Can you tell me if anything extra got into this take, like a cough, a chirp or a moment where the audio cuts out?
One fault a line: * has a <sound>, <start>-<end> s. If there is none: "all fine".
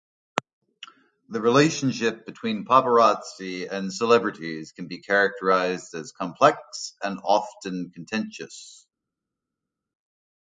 all fine